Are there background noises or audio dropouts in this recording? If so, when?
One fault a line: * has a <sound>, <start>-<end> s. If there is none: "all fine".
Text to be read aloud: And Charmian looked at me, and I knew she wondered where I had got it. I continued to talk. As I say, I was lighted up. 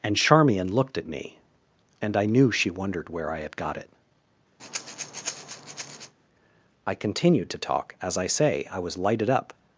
* has a breath, 4.6-6.1 s